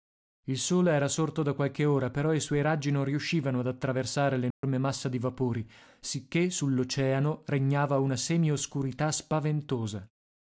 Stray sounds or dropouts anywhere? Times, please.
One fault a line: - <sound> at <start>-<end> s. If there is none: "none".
- dropout at 4.5-4.6 s